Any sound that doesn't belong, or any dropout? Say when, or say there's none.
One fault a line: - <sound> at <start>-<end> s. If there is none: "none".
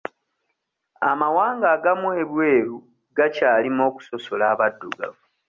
none